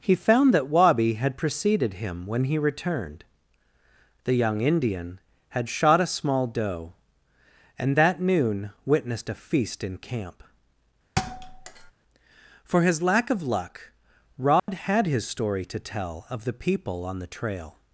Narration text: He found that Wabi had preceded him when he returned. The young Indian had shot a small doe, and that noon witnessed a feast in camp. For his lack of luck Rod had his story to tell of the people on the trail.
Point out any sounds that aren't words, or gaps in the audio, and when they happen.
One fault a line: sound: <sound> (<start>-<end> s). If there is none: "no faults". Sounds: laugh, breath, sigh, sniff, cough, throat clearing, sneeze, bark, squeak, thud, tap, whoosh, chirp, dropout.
sound: thud (11.2-11.9 s)
sound: dropout (14.6-14.7 s)